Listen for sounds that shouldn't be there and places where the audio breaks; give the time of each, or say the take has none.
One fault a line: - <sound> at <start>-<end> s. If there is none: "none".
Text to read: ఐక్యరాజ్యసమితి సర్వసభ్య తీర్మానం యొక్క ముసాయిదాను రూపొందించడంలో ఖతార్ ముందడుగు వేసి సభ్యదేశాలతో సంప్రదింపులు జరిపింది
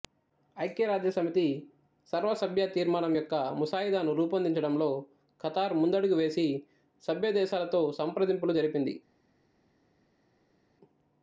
none